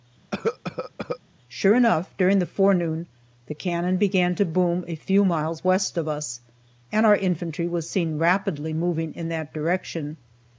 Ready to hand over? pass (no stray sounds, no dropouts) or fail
fail